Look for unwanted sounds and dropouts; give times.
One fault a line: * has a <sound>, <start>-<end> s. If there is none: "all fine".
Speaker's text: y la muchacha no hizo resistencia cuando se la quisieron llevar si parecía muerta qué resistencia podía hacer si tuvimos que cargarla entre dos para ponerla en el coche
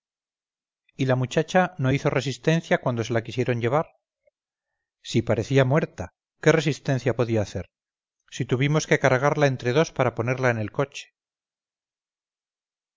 all fine